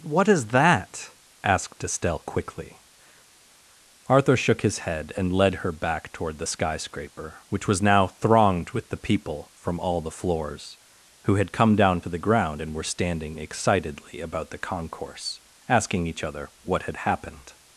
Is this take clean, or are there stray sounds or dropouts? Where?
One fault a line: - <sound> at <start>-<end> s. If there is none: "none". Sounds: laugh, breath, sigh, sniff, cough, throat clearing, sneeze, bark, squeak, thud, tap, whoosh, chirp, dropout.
none